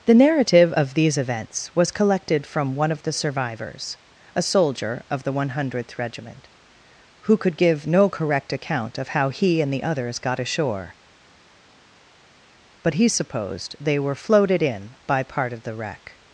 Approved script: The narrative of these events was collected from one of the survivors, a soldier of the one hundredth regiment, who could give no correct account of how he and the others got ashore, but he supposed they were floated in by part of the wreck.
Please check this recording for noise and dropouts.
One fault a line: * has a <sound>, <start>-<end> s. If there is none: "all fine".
all fine